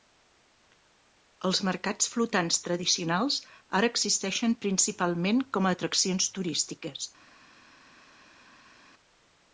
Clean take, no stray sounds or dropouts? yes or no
yes